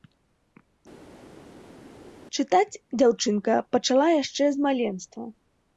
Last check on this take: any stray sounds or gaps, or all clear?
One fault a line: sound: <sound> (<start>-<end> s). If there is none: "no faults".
no faults